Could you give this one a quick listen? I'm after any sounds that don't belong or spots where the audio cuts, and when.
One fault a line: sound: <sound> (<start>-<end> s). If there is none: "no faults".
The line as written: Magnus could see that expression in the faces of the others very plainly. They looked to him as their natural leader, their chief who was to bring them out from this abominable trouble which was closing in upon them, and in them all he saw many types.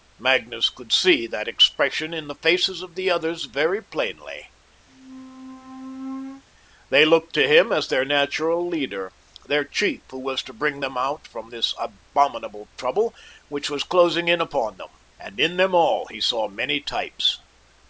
sound: squeak (4.9-6.4 s)